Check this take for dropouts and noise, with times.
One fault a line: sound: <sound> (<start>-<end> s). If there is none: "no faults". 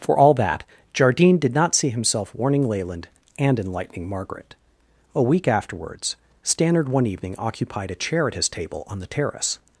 no faults